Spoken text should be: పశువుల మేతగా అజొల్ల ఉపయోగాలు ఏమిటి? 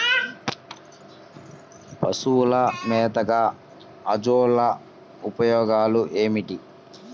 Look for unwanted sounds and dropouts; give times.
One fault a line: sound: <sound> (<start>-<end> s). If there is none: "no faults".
no faults